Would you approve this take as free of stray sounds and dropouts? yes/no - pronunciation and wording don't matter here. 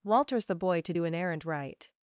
yes